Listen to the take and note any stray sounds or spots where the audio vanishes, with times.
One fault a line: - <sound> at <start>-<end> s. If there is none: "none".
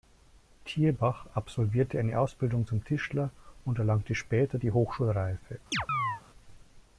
- chirp at 5.7-6.2 s